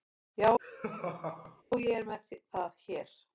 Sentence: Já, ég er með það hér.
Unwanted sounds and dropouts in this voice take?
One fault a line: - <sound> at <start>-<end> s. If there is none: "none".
- laugh at 0.6-1.6 s